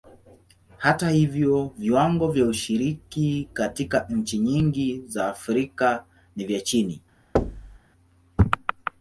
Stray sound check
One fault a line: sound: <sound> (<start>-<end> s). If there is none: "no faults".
sound: thud (7.4-7.8 s)